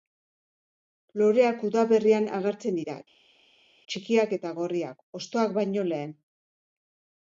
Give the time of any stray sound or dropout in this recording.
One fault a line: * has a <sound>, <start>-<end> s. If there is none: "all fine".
all fine